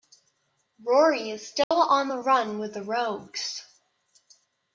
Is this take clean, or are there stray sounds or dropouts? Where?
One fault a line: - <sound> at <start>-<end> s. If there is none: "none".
- dropout at 1.6-1.7 s